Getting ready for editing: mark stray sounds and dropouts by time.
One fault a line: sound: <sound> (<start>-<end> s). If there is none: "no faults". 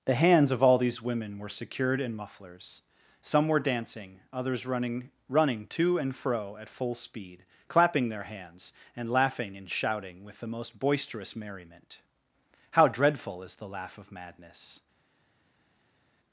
no faults